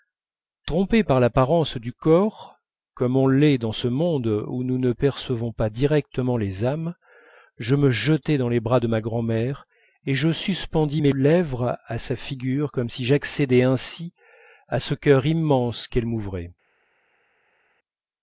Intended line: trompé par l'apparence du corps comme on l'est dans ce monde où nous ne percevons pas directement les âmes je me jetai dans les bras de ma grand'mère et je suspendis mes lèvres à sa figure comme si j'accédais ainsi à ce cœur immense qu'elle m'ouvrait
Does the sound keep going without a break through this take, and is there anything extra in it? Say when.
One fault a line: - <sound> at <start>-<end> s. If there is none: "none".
none